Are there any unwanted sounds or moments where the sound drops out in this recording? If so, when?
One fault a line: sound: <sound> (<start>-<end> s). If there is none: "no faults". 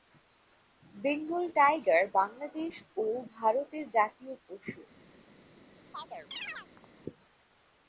sound: chirp (5.9-6.9 s)